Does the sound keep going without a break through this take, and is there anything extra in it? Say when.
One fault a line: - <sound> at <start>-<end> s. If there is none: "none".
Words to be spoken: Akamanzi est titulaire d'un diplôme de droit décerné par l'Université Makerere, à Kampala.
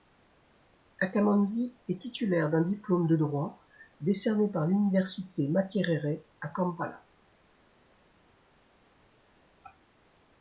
none